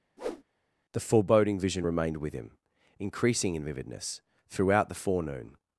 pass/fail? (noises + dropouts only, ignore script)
fail